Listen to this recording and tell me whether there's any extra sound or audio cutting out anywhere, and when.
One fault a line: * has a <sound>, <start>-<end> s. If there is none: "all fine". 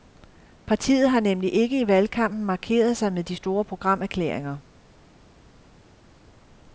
all fine